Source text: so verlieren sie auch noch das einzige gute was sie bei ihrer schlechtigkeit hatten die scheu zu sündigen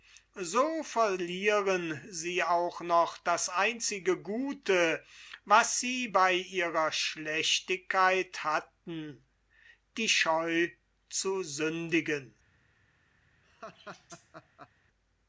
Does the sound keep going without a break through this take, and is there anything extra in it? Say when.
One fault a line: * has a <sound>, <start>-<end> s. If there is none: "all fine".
* has a laugh, 13.4-14.7 s